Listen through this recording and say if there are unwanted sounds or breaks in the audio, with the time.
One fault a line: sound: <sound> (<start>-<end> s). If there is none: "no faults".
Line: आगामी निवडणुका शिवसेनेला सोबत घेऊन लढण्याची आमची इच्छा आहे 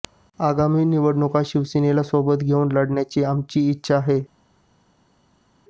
no faults